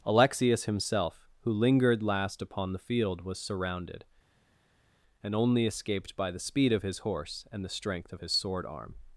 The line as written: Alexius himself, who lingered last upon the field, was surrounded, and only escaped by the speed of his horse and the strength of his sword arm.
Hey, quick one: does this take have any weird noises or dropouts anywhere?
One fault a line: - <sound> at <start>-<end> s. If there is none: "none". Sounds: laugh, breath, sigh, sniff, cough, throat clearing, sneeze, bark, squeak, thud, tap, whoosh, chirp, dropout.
none